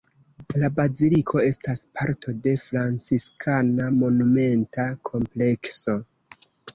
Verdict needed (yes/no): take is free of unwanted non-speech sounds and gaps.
yes